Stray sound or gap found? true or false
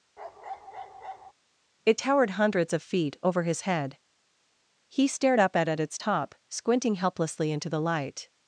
true